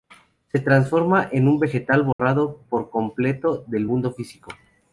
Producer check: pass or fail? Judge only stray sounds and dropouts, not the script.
fail